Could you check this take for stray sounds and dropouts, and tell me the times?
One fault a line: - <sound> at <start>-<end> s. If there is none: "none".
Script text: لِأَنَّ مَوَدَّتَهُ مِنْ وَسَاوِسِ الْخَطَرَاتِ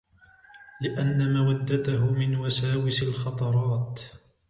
none